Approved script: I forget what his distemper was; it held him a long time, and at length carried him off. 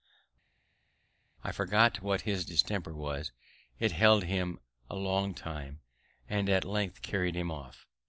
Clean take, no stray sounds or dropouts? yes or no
yes